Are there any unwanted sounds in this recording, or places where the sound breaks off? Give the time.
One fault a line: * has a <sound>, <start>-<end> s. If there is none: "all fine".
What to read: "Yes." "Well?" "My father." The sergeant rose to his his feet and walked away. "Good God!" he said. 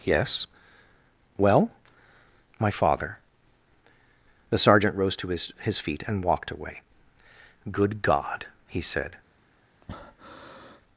* has a breath, 9.8-10.8 s